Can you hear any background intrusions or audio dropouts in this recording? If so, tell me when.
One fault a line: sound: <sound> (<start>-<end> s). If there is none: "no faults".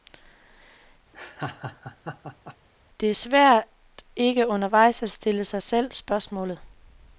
sound: laugh (1.1-2.6 s)